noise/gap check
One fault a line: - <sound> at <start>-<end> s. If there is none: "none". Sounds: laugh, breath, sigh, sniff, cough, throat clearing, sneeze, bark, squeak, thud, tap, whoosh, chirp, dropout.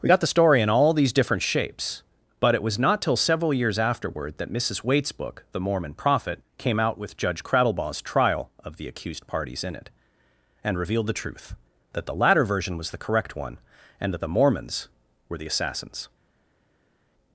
none